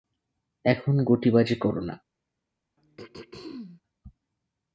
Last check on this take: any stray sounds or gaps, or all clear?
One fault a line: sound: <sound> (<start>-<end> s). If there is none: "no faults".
sound: throat clearing (2.8-3.8 s)